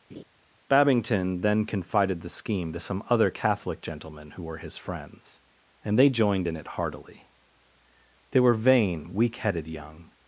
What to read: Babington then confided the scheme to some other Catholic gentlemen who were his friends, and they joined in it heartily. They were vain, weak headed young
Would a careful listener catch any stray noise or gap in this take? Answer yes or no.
yes